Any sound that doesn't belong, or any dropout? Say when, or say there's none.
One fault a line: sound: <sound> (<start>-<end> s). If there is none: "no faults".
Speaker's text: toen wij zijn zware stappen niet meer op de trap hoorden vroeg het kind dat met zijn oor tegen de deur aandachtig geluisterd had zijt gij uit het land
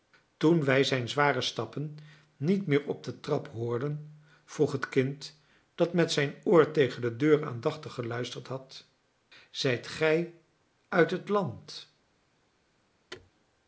sound: thud (13.1-13.3 s)